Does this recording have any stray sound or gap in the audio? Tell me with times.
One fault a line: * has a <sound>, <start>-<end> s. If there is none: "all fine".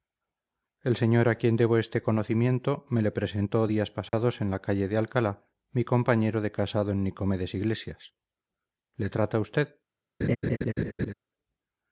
* has a dropout, 4.1-4.1 s
* has a laugh, 10.2-11.1 s